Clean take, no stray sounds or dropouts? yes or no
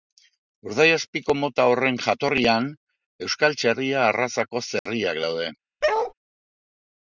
no